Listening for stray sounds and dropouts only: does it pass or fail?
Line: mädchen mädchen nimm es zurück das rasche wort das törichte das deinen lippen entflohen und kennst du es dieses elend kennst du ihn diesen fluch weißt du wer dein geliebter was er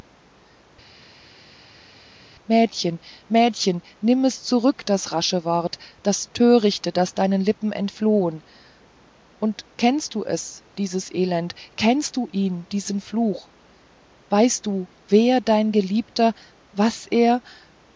pass